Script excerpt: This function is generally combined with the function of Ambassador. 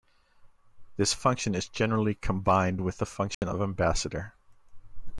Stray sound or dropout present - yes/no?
yes